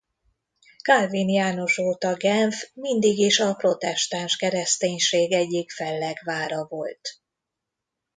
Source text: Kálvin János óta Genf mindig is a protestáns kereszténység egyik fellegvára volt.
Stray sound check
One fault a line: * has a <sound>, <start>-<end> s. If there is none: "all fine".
all fine